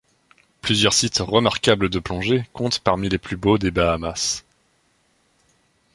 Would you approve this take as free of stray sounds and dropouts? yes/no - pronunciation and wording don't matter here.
yes